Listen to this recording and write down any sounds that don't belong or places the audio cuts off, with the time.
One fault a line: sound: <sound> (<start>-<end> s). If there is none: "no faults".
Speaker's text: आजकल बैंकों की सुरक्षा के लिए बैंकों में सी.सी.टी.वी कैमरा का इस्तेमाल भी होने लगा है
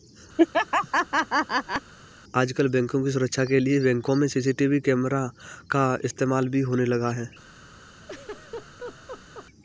sound: laugh (0.4-1.9 s)
sound: laugh (8.0-9.5 s)